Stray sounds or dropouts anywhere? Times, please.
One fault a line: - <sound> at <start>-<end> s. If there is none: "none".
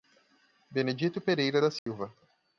- dropout at 1.8-1.9 s